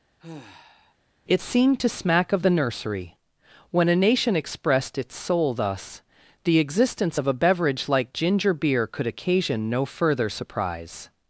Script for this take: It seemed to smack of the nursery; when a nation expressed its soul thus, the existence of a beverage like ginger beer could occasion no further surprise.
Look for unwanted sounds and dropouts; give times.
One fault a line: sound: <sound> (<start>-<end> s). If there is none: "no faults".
sound: sigh (0.2-0.9 s)